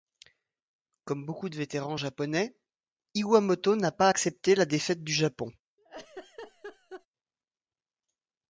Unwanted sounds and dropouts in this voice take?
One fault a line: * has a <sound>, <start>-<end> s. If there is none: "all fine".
* has a laugh, 5.8-7.1 s